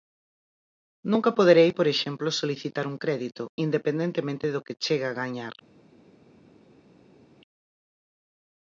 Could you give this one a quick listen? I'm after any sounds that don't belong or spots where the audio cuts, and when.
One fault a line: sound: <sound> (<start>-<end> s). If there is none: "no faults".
no faults